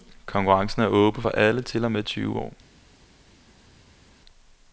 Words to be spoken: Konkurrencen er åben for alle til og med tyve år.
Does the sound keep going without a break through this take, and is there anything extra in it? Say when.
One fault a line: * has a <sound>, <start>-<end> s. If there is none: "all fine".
all fine